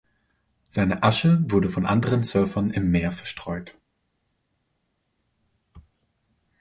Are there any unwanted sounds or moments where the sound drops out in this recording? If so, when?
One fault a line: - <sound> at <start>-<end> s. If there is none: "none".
none